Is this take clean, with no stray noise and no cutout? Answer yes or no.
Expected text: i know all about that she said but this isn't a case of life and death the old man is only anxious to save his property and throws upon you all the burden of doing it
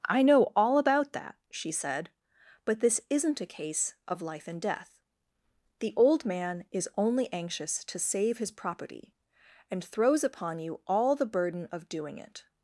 yes